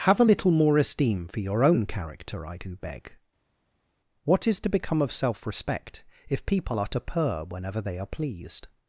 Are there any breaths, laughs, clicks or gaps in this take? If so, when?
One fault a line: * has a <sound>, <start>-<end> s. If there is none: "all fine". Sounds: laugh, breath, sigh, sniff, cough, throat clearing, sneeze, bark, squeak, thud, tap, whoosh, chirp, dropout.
all fine